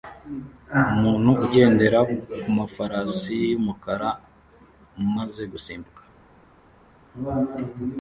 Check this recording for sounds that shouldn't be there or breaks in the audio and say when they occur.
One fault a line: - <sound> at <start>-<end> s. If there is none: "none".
none